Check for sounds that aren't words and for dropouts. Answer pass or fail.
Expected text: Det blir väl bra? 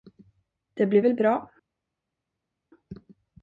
pass